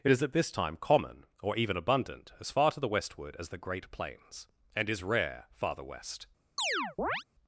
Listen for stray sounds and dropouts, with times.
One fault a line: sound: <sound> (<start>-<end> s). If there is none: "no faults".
sound: chirp (6.6-7.2 s)